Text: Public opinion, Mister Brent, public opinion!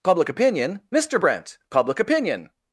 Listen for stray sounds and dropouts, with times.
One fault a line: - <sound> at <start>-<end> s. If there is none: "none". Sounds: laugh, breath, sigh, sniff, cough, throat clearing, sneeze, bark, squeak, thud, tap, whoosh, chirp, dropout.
none